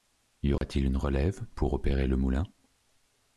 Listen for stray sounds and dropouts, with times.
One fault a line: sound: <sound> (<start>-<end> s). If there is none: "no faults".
sound: dropout (0.6-0.6 s)